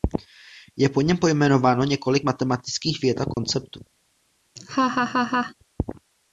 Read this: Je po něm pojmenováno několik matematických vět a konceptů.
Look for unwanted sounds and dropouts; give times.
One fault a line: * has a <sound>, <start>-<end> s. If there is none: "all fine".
* has a dropout, 3.3-3.4 s
* has a laugh, 4.6-5.5 s